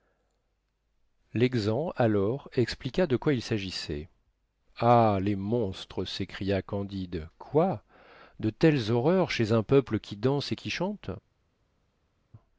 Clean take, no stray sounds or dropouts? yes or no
yes